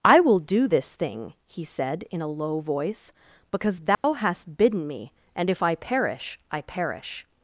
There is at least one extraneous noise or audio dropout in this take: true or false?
true